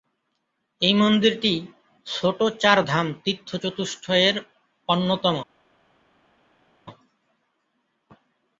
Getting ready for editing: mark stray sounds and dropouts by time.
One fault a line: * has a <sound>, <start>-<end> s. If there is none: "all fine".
all fine